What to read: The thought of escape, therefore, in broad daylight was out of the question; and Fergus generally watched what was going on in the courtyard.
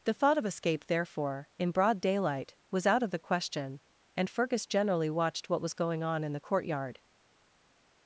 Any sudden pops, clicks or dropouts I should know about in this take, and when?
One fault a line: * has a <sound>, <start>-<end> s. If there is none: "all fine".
all fine